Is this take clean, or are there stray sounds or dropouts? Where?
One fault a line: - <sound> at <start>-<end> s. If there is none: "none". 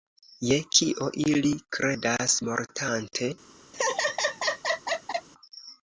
- laugh at 3.7-5.3 s